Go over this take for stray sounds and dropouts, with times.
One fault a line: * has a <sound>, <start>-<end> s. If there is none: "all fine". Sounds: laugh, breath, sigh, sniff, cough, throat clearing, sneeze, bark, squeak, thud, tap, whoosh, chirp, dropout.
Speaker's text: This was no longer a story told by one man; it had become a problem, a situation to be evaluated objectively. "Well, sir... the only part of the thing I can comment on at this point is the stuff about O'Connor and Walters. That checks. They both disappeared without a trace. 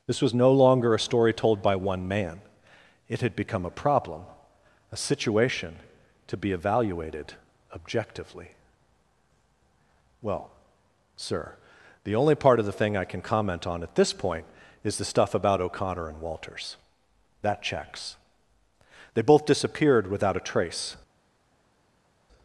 all fine